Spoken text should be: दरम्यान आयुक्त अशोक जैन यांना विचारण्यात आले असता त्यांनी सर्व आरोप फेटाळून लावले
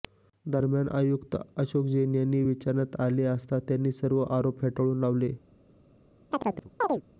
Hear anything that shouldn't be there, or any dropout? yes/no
yes